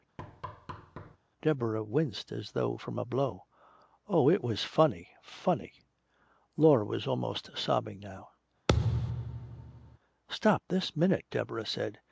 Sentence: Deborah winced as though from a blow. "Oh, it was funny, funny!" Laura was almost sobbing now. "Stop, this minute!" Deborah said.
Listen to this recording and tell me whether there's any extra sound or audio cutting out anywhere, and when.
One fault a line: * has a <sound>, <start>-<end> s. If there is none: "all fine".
* has a thud, 0.2-1.2 s
* has a thud, 8.7-10.0 s